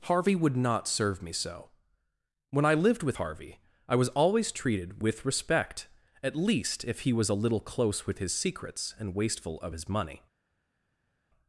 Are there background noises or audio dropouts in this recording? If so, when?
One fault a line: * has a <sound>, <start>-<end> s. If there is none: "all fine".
all fine